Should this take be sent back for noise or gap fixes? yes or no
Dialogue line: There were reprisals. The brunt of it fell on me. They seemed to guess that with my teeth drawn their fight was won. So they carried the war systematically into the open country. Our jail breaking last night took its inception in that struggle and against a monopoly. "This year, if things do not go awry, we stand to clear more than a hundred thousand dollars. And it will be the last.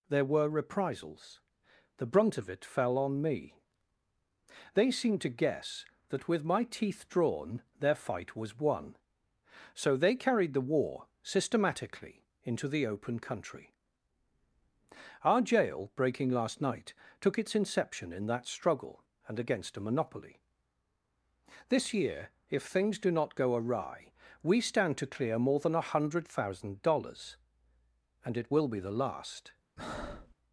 yes